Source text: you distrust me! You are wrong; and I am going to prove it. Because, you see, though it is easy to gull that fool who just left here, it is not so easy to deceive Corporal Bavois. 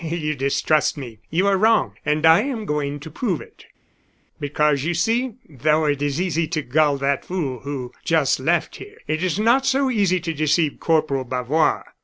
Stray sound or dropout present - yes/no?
no